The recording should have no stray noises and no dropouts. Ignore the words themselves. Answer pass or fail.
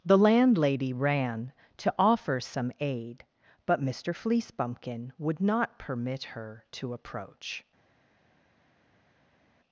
pass